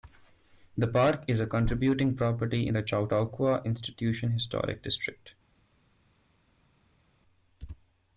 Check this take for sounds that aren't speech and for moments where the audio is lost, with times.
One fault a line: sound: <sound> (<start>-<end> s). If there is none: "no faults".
no faults